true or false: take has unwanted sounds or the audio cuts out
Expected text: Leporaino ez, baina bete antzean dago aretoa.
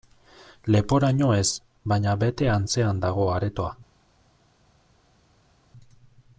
false